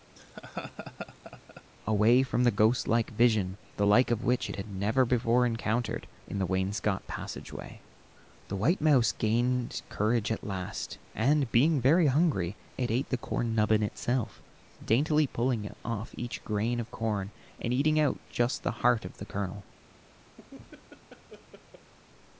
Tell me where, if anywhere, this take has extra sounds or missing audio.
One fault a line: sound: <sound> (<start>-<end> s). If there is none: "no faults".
sound: laugh (0.2-1.6 s)
sound: laugh (20.4-21.9 s)